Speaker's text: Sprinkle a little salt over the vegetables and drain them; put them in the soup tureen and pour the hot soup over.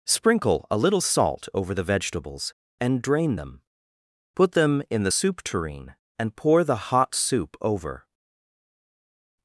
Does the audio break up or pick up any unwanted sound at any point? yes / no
no